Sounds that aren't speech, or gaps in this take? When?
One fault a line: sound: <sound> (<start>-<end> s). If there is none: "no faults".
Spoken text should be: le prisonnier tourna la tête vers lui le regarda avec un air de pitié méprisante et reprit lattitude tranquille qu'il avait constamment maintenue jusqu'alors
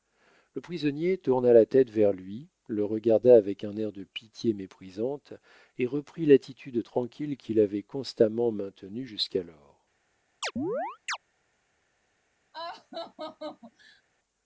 sound: chirp (10.4-11.2 s)
sound: laugh (12.5-14.0 s)